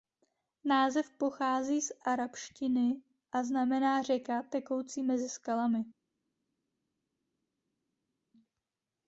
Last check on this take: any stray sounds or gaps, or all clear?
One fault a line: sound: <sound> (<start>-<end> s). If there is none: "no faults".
no faults